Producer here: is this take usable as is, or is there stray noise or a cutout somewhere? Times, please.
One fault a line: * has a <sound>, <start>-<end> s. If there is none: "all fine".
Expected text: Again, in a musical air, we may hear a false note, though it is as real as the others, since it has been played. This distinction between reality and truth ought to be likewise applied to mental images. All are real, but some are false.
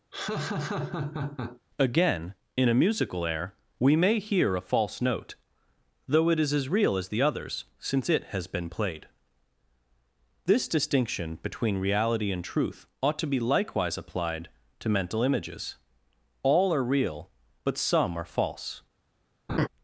* has a laugh, 0.1-1.6 s
* has a laugh, 19.5-19.7 s